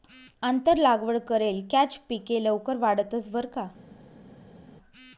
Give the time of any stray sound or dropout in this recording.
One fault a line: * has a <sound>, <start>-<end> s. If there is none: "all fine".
all fine